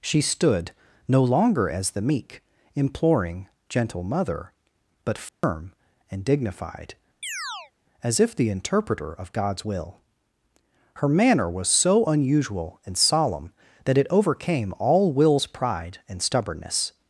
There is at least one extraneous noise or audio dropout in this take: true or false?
true